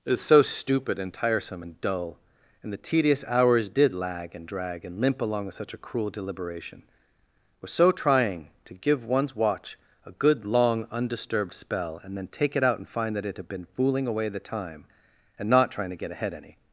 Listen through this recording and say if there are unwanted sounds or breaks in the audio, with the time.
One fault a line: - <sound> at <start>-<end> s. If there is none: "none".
none